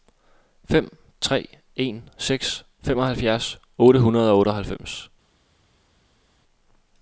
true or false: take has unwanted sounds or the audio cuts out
false